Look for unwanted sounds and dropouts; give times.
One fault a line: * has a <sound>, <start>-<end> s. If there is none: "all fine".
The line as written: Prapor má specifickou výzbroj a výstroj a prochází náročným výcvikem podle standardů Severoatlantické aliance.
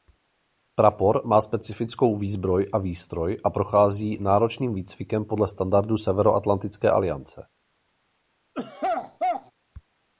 * has a throat clearing, 8.5-9.5 s